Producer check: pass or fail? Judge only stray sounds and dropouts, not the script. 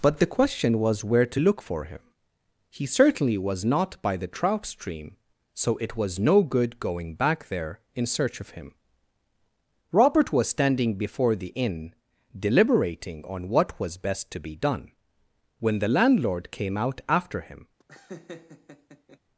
fail